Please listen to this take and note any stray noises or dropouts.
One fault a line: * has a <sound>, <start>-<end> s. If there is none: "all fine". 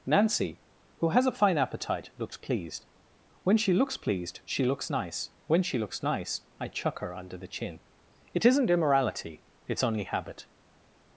all fine